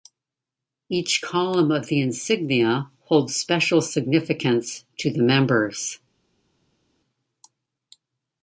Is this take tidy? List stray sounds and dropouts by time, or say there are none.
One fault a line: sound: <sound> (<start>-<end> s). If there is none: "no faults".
no faults